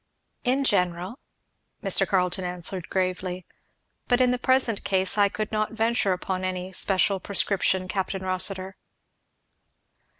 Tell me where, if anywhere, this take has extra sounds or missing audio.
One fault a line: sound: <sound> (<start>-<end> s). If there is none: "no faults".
no faults